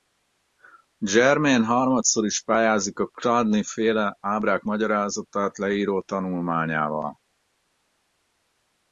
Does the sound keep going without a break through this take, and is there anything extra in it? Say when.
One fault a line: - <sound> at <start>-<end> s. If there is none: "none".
none